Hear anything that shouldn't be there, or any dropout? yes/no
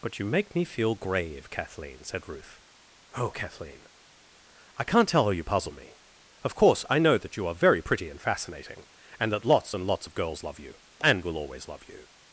no